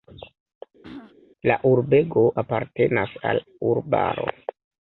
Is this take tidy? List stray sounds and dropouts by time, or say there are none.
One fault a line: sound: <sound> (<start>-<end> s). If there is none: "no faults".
sound: throat clearing (0.8-1.2 s)